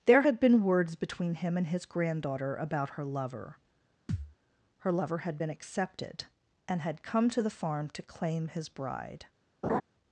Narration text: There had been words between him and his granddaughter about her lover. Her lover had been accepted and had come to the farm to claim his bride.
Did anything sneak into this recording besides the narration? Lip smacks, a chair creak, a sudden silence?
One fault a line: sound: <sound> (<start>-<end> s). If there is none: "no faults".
sound: thud (4.1-4.3 s)
sound: laugh (9.6-9.8 s)